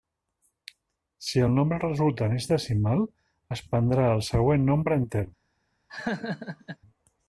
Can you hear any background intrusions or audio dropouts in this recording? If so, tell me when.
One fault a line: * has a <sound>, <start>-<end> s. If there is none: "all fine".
* has a laugh, 5.9-6.8 s